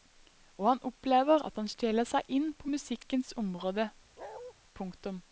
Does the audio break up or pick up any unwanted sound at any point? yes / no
yes